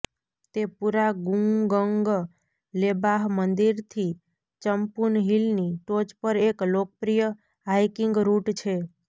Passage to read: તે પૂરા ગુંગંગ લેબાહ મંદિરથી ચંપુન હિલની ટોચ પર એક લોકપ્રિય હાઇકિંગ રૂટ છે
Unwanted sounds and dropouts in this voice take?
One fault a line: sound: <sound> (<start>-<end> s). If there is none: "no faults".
no faults